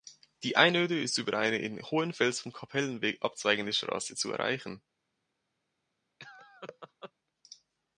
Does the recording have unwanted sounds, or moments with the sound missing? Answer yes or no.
yes